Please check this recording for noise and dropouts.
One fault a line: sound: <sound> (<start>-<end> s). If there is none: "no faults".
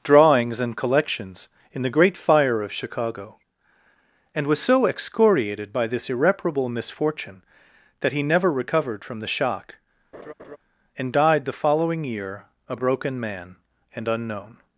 sound: laugh (10.1-10.6 s)